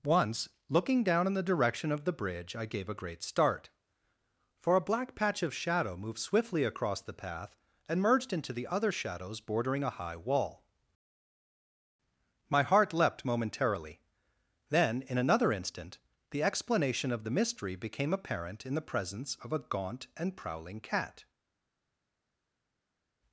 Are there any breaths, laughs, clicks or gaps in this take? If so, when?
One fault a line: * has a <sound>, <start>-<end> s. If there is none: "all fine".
all fine